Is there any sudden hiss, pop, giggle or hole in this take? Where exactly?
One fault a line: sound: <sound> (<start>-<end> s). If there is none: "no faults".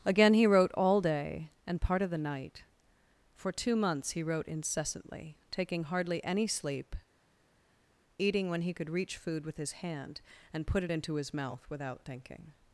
no faults